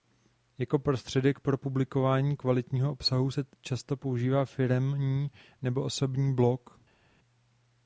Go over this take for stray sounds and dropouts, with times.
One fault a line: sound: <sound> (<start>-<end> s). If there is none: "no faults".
no faults